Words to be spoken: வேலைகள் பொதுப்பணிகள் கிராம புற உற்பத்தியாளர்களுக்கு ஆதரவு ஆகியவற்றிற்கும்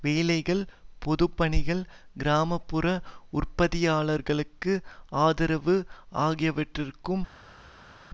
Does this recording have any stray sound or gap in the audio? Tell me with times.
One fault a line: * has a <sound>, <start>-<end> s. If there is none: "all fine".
all fine